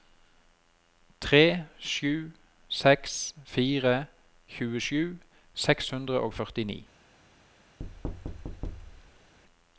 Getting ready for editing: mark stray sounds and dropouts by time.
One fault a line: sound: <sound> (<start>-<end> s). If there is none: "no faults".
sound: thud (7.8-9.3 s)